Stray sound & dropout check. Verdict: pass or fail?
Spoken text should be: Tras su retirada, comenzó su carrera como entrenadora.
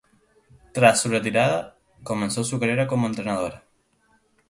pass